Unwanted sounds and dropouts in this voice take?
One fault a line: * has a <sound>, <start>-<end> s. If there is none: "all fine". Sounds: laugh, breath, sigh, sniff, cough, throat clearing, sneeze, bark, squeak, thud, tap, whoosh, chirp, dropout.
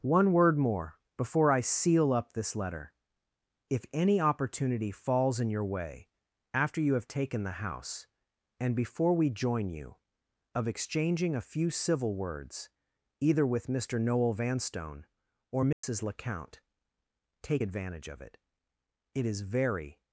* has a dropout, 15.7-15.8 s